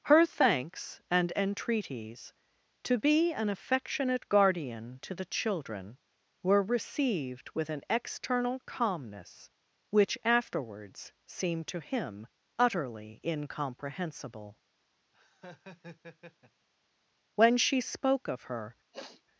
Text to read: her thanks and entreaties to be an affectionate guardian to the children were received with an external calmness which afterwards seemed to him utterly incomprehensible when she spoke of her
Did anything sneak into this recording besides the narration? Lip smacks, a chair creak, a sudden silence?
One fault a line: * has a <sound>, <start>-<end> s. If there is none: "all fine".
* has a laugh, 15.1-16.7 s
* has a sniff, 18.9-19.2 s